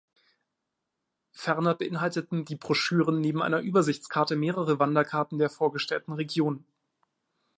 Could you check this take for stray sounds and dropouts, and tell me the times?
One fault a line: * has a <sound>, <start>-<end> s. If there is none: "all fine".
all fine